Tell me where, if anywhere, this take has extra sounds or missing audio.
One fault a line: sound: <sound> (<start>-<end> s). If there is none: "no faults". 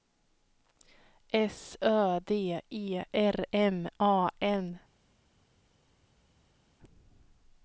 no faults